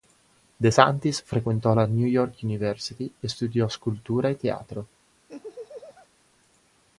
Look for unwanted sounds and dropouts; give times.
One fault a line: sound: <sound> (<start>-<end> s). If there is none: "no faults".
sound: laugh (5.3-6.1 s)